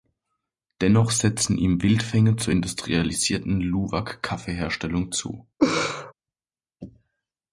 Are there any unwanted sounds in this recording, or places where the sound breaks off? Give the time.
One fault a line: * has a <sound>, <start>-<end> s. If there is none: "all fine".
* has a laugh, 5.6-6.1 s